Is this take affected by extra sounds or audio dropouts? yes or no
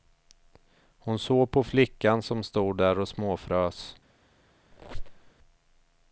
yes